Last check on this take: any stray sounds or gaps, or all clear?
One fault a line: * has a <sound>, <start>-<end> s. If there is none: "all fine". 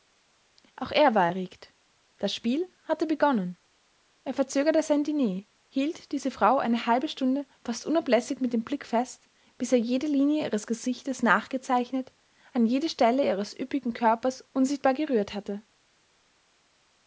all fine